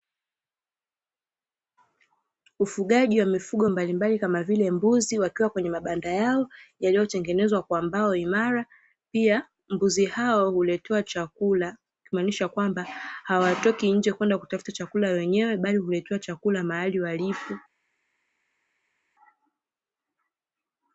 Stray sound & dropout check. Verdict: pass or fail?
pass